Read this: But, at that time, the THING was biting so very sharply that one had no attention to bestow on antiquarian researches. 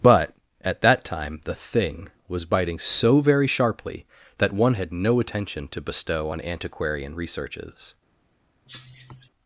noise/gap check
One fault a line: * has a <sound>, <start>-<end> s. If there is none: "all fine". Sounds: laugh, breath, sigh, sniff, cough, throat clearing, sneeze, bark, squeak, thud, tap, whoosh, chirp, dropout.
* has a cough, 8.7-9.3 s